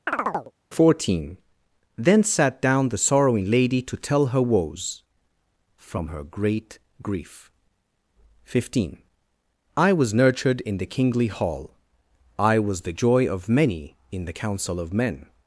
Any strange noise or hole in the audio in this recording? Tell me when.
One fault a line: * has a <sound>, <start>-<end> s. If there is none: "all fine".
* has a chirp, 0.1-0.5 s